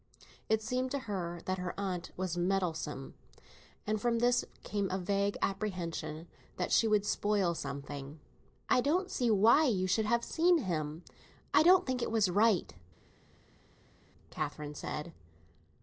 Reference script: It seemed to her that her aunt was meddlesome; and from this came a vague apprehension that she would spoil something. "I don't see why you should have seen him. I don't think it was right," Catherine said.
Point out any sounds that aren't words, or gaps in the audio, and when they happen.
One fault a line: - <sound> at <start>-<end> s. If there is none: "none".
none